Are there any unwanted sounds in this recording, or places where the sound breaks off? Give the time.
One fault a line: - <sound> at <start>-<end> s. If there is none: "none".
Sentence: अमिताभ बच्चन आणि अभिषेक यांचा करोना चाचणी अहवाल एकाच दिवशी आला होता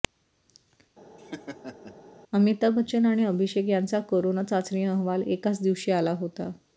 - laugh at 1.2-2.0 s